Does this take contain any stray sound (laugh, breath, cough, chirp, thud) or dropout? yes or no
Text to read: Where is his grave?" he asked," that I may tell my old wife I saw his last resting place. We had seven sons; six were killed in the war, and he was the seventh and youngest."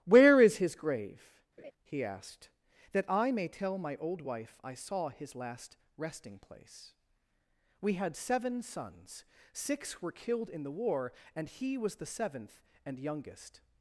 yes